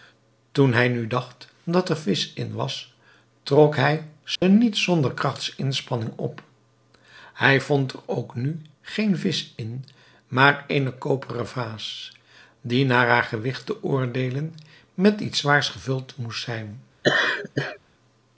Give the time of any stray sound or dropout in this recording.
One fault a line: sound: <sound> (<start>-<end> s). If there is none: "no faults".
sound: dropout (4.4-4.4 s)
sound: laugh (17.0-17.8 s)